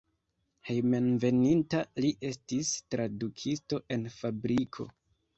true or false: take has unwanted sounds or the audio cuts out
false